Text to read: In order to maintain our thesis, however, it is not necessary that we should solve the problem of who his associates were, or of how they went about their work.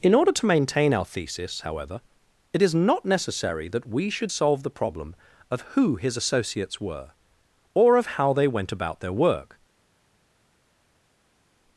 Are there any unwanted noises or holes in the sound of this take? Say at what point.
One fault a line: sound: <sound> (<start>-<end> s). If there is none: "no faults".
no faults